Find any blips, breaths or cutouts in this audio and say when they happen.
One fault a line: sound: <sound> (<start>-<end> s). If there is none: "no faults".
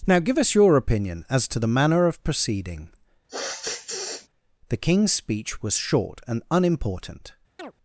sound: sniff (3.3-4.3 s)
sound: chirp (7.6-7.7 s)